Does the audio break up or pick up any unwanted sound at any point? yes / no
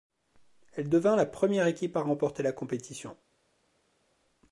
no